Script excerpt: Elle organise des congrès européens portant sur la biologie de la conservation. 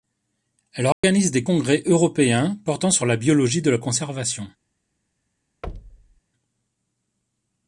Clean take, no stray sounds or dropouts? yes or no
no